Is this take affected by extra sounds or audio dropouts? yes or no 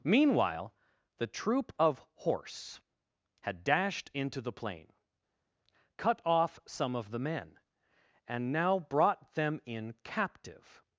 no